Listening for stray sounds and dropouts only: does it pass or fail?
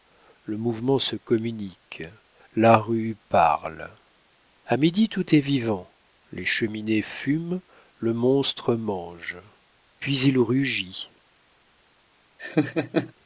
fail